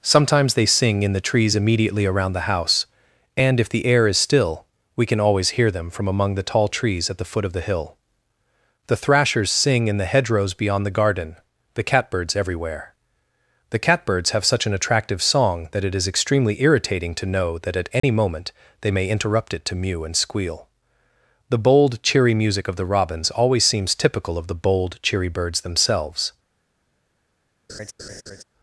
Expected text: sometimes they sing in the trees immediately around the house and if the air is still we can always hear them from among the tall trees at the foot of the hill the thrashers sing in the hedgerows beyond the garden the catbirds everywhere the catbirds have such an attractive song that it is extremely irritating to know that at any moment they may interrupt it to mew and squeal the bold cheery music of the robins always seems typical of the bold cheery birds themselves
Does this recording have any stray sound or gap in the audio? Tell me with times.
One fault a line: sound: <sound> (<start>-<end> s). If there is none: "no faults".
sound: dropout (18.0-18.0 s)
sound: laugh (27.7-28.4 s)